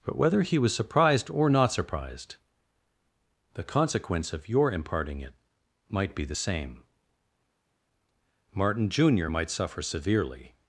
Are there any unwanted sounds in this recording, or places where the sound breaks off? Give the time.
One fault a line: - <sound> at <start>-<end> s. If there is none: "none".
none